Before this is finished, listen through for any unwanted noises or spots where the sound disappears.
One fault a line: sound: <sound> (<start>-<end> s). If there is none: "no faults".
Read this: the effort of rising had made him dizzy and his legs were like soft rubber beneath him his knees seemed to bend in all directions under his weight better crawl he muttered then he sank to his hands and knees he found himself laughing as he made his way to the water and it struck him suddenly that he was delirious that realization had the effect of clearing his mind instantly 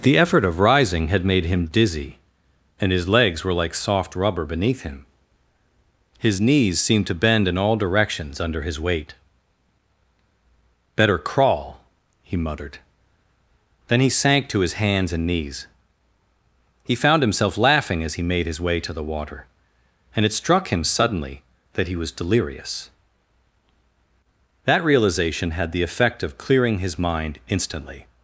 no faults